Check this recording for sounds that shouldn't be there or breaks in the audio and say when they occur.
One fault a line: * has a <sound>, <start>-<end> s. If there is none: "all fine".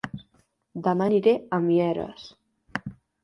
all fine